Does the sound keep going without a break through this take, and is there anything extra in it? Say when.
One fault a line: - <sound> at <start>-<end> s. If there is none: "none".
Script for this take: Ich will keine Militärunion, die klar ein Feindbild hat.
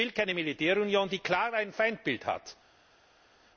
none